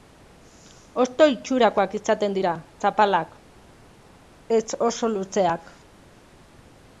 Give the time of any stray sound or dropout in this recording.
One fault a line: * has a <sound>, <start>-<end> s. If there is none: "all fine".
all fine